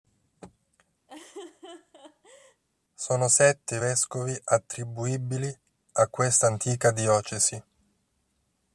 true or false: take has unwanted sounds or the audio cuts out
true